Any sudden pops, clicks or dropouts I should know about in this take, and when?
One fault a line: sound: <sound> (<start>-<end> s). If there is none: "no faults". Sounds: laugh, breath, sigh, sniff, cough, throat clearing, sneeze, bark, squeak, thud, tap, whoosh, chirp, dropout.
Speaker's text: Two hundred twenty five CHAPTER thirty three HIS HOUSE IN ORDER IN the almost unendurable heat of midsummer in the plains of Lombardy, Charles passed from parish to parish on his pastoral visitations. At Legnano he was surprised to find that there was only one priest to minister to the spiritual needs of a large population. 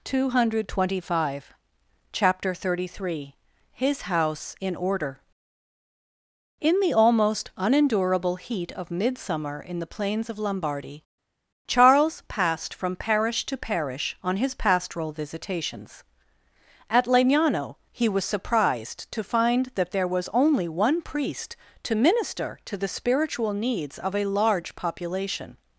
no faults